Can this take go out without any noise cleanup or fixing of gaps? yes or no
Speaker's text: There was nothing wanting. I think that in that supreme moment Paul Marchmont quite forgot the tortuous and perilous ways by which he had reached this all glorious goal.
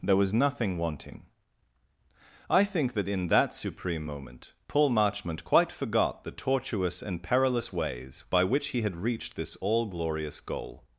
yes